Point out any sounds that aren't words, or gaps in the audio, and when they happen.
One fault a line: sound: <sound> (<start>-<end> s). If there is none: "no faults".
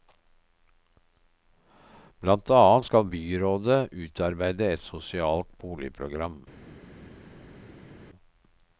no faults